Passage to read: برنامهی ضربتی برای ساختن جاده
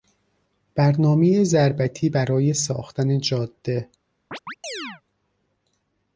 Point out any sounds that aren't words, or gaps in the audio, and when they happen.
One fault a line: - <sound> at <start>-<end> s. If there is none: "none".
- chirp at 4.3-5.0 s